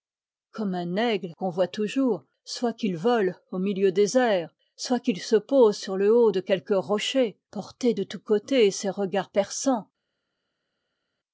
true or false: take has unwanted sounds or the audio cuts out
false